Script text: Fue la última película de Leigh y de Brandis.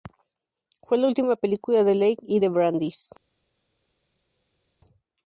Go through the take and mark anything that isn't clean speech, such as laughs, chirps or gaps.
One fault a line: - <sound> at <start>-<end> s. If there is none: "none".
none